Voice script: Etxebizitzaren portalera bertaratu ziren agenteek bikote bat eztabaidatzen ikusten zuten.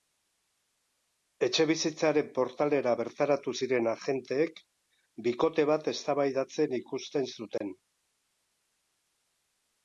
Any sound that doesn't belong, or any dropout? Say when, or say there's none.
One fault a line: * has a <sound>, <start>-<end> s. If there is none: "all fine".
* has a dropout, 7.6-7.6 s